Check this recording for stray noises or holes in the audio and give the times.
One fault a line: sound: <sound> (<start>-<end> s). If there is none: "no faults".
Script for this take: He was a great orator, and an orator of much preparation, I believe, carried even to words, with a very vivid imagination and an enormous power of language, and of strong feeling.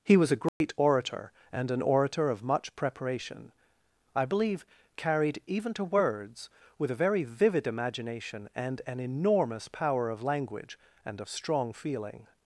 sound: dropout (0.5-0.6 s)